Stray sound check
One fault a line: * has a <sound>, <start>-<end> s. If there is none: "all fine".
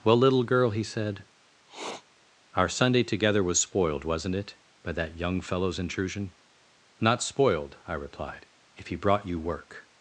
* has a sniff, 1.7-2.0 s